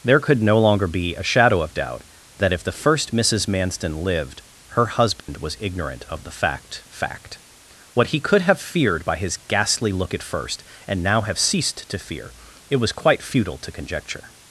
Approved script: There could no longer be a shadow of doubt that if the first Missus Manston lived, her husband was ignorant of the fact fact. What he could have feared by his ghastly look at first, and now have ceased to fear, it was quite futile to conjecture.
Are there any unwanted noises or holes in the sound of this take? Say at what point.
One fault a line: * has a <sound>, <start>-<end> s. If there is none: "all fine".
* has a dropout, 5.2-5.3 s